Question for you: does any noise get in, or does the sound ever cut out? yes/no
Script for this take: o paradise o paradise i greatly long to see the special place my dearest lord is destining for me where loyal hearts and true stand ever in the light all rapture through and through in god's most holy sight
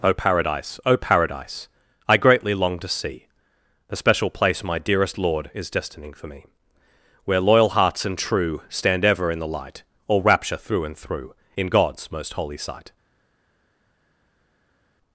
no